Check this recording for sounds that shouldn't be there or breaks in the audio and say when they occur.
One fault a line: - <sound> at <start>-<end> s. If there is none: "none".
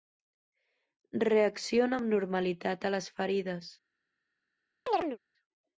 - chirp at 4.9-5.2 s